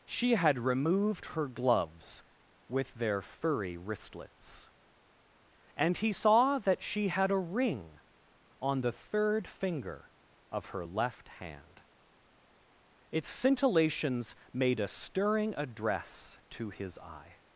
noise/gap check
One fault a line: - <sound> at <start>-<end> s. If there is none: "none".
none